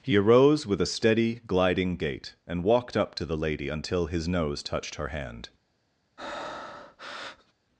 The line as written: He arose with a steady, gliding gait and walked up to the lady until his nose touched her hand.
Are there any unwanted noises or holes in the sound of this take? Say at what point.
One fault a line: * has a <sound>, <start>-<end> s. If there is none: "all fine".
* has a breath, 6.2-7.5 s